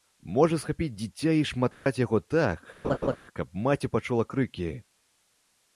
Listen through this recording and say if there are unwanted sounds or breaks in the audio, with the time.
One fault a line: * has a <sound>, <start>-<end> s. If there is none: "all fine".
* has a dropout, 1.7-1.9 s
* has a laugh, 2.8-3.2 s